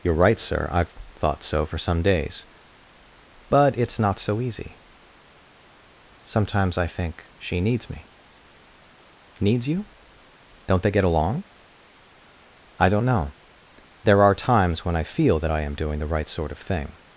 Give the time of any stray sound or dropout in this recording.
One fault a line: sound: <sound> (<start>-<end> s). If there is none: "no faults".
no faults